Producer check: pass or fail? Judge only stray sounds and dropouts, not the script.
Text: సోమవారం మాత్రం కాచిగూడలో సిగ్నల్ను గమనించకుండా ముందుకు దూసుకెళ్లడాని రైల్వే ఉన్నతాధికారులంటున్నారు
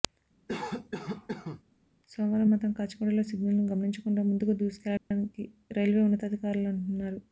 fail